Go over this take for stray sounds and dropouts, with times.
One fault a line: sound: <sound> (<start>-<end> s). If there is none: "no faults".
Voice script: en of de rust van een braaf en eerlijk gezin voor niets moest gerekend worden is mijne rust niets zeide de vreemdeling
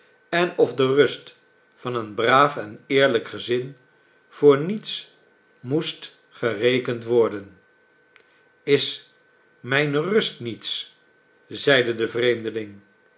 no faults